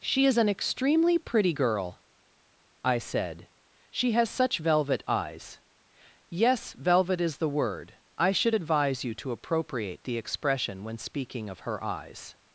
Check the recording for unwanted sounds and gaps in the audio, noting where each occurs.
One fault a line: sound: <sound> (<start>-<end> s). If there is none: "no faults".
no faults